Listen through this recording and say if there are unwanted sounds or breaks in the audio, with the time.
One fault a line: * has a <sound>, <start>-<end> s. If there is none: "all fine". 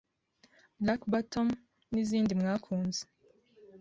all fine